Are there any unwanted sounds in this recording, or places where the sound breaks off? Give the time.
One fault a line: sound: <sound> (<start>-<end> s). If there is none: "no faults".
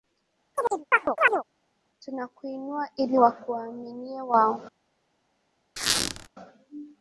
sound: chirp (0.5-1.4 s)
sound: squeak (5.8-6.3 s)